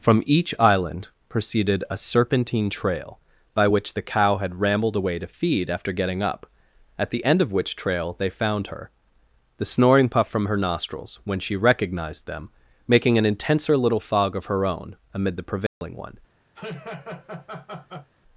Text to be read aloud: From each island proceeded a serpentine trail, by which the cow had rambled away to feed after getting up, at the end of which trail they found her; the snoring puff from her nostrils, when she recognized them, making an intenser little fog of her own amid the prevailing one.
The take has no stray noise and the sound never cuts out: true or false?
false